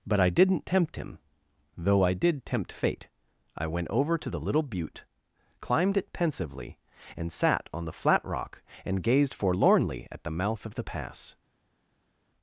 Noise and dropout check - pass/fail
pass